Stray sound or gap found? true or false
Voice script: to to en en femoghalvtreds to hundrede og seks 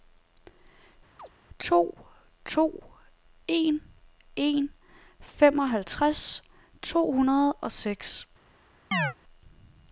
true